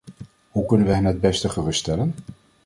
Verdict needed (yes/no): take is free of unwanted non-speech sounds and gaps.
yes